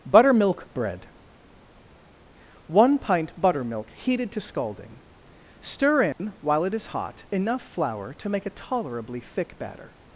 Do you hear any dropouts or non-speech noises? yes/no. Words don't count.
yes